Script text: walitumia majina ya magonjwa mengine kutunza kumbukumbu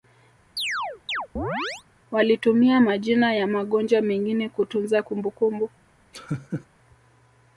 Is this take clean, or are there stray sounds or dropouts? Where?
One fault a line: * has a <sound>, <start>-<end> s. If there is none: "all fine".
* has a chirp, 0.6-1.8 s
* has a laugh, 6.1-6.7 s